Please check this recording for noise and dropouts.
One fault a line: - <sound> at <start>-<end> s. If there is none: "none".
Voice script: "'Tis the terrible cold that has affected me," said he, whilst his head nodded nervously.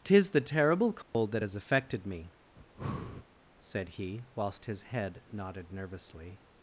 - dropout at 1.0-1.1 s
- breath at 2.6-3.3 s